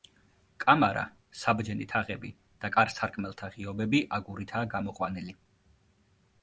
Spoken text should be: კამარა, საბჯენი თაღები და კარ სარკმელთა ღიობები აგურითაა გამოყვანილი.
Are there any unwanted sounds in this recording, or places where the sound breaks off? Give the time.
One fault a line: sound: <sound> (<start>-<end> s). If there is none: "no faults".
no faults